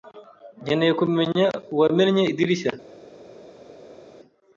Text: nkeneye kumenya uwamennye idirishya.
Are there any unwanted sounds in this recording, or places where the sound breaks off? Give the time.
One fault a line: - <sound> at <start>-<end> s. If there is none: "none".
none